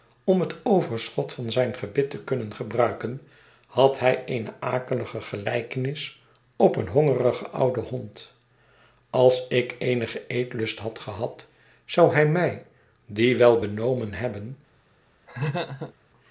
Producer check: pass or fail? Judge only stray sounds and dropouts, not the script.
fail